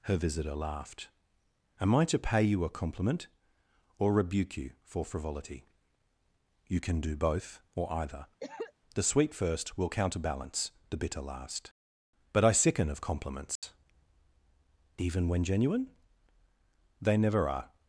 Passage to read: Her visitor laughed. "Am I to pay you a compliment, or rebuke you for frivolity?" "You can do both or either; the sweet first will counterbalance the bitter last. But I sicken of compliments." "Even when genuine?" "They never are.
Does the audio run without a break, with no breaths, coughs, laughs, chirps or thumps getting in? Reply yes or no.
no